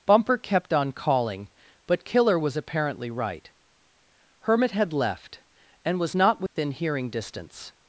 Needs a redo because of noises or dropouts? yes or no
yes